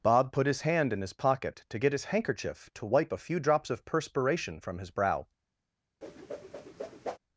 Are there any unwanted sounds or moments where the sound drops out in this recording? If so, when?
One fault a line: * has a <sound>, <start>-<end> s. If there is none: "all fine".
* has a whoosh, 6.0-7.2 s